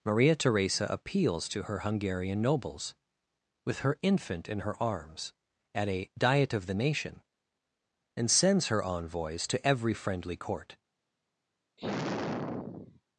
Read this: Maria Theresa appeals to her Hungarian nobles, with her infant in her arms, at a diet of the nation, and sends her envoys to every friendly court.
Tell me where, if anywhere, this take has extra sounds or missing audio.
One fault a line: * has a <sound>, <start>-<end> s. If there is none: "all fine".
* has a sigh, 11.8-13.0 s